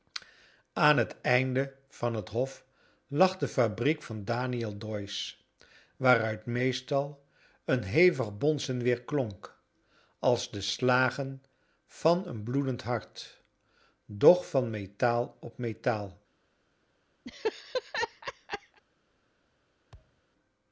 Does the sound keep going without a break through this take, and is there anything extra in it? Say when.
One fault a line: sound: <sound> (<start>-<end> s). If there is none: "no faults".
sound: laugh (17.3-18.8 s)
sound: thud (19.9-20.2 s)